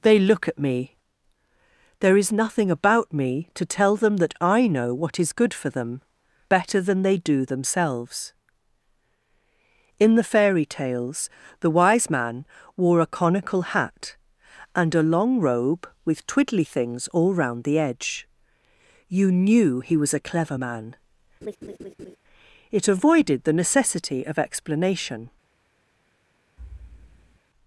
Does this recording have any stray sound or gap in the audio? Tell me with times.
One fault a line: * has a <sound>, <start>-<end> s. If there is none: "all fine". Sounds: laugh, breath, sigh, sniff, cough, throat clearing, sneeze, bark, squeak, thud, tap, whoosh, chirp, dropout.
* has a laugh, 21.4-22.2 s
* has a thud, 26.6-27.4 s